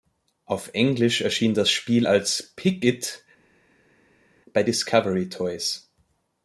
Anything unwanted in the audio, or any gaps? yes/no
no